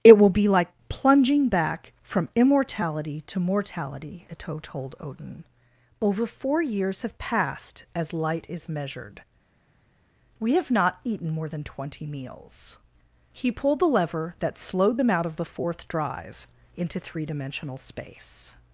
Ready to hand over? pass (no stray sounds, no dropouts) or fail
pass